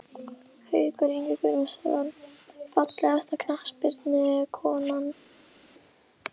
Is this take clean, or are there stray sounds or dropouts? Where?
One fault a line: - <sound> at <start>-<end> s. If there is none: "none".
none